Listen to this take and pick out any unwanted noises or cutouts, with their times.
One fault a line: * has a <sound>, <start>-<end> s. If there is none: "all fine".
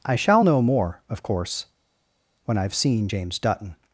all fine